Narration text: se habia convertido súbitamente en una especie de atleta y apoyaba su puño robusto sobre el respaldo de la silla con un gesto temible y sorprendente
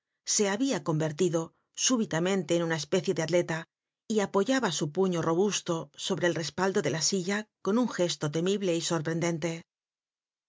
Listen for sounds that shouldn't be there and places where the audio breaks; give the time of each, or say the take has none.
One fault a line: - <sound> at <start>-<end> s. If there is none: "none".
none